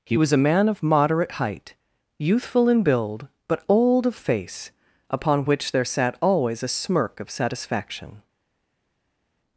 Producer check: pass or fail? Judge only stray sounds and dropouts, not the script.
pass